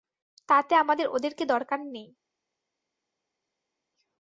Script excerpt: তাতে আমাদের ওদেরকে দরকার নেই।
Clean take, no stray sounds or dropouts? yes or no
yes